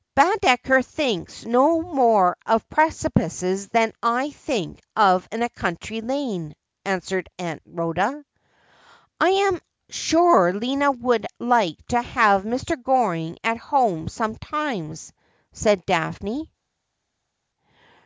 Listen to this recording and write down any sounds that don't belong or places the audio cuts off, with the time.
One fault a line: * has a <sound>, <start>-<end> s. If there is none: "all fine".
all fine